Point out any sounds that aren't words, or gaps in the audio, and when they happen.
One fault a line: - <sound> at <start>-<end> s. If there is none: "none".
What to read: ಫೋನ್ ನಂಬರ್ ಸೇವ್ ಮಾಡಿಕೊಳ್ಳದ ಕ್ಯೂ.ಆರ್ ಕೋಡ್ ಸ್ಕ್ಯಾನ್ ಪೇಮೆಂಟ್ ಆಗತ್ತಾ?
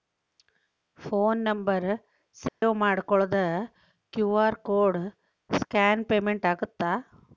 - dropout at 2.5-2.6 s